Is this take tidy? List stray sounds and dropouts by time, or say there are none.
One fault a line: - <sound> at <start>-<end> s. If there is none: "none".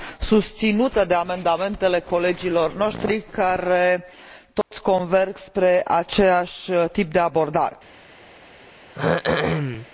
- dropout at 4.6-4.7 s
- throat clearing at 8.9-9.9 s